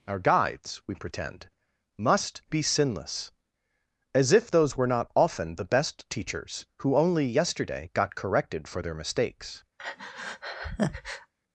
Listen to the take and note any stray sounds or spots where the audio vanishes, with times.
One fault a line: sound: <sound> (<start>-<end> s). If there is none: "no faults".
sound: breath (9.8-11.3 s)